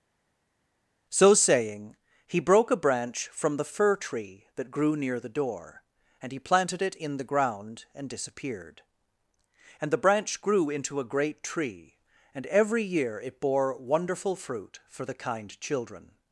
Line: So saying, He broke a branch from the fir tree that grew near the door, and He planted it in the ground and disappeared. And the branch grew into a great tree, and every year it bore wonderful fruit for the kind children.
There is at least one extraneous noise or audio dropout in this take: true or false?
false